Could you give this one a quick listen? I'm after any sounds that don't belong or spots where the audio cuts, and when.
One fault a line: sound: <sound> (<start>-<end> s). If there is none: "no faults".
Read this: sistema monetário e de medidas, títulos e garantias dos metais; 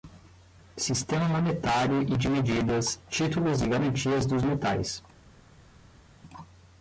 no faults